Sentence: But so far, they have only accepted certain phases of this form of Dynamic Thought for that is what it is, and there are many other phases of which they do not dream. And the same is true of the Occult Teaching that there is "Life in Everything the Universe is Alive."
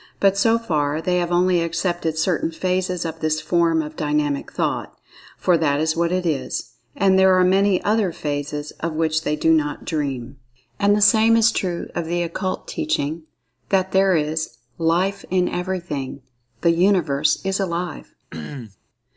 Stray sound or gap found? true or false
true